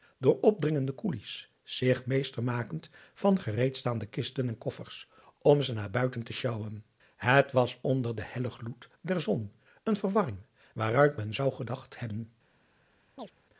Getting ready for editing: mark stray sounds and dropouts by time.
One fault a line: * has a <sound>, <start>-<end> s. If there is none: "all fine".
* has a chirp, 13.2-13.3 s